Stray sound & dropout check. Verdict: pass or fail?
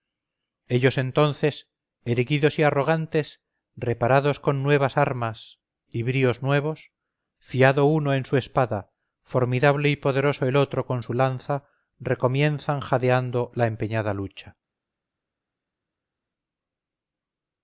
pass